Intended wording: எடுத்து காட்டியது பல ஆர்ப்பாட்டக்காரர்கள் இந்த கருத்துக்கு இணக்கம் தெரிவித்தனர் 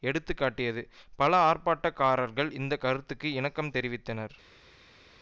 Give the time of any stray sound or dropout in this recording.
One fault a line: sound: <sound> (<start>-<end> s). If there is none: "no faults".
no faults